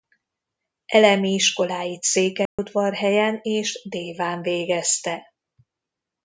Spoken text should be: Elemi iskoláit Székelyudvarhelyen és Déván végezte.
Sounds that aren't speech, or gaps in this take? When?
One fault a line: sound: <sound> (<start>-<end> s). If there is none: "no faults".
sound: dropout (2.5-2.6 s)